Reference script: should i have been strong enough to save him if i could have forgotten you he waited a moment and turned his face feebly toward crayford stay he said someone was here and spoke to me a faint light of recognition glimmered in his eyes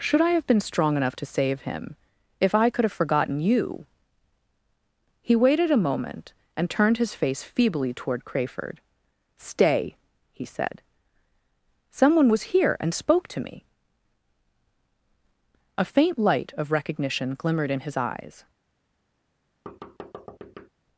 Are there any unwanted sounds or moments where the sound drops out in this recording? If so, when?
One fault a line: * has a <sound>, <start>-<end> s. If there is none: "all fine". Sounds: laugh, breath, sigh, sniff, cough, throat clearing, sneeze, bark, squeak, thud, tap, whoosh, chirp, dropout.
* has a thud, 19.7-20.7 s